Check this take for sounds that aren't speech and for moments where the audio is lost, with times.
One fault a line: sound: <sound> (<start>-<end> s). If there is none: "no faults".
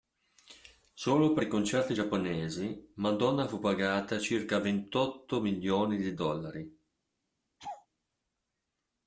sound: laugh (7.6-7.9 s)